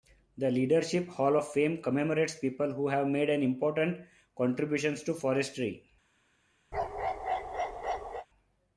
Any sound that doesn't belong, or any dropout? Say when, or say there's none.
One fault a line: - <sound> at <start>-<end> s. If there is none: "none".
- bark at 6.7-8.3 s